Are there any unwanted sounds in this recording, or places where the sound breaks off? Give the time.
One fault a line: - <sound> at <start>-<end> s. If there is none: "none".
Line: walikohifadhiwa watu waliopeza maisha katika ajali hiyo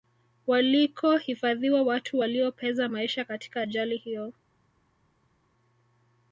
none